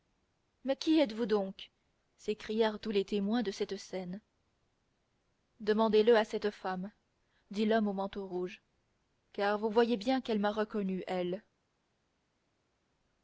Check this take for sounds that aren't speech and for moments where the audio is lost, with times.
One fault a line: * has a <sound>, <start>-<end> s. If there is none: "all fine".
all fine